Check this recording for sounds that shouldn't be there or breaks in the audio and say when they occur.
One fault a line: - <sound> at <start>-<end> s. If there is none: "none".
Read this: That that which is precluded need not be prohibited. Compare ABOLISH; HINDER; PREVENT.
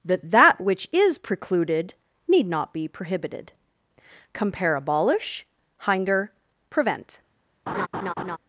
- laugh at 7.7-8.4 s